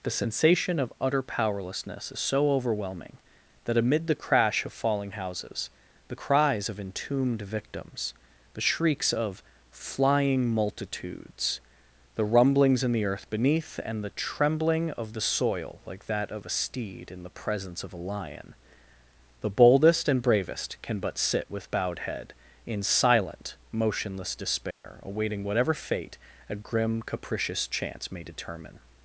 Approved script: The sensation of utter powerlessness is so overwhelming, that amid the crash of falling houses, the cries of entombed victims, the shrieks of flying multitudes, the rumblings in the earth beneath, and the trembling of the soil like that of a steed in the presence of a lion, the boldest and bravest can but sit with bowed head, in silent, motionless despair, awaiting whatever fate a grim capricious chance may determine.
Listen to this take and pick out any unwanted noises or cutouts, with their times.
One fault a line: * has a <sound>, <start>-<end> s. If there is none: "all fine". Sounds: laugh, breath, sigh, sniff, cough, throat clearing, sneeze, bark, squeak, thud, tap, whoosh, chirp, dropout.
* has a dropout, 24.7-24.8 s